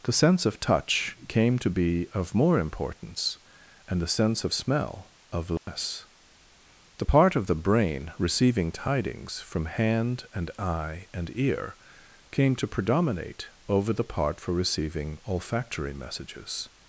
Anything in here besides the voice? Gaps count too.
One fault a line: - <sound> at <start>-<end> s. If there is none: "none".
- dropout at 5.6-5.7 s